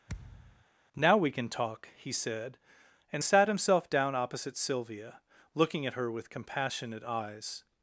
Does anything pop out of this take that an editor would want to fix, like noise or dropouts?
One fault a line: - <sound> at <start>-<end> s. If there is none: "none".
- thud at 0.1-0.7 s